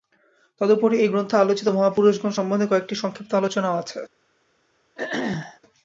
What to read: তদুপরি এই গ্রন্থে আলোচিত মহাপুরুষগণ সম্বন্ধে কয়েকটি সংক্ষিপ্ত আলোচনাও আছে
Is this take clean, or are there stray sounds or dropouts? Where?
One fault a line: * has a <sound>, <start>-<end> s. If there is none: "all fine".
* has a throat clearing, 5.0-5.6 s